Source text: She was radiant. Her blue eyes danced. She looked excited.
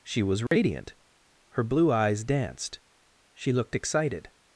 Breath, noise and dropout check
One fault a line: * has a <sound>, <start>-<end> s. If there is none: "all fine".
* has a dropout, 0.5-0.5 s